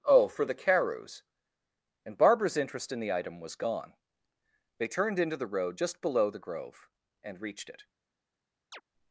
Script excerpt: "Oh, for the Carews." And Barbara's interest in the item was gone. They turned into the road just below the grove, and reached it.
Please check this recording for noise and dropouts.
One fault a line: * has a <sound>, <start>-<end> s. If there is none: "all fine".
* has a chirp, 8.7-8.8 s